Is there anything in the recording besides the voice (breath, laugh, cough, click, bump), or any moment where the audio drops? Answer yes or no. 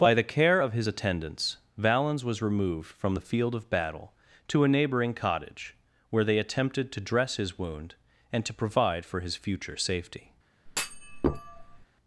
yes